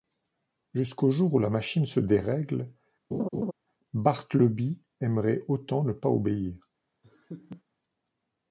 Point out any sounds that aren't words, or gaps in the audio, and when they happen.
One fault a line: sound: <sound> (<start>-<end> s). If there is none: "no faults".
sound: laugh (3.1-3.5 s)
sound: laugh (7.0-7.6 s)